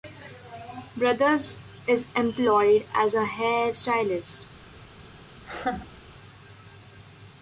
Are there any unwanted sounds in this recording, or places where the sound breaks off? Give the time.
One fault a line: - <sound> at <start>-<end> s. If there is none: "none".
- laugh at 5.4-6.0 s